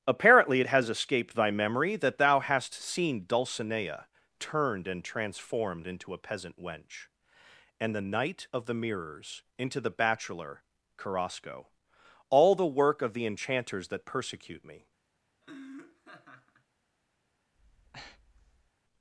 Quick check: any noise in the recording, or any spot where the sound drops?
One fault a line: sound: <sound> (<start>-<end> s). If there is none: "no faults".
sound: laugh (15.4-16.7 s)
sound: breath (17.5-18.7 s)